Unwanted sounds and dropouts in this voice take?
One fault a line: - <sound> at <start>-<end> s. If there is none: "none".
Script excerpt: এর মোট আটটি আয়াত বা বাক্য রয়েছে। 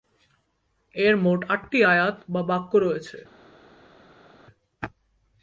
none